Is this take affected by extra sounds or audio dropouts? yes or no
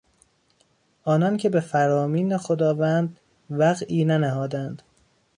no